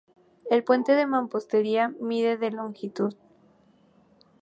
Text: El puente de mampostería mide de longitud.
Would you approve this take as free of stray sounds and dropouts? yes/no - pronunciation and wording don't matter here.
yes